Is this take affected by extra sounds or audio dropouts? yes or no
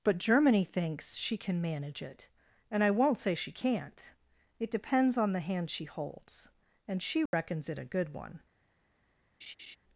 yes